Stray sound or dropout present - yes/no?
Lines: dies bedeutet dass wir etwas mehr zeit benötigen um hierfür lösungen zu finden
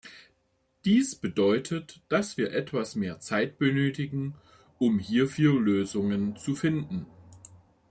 no